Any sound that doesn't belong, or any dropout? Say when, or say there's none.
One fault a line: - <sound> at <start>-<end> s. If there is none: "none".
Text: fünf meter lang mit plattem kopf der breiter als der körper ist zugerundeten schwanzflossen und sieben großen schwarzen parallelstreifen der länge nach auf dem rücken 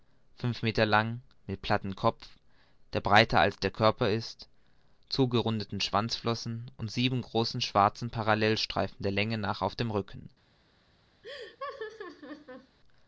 - laugh at 11.2-12.8 s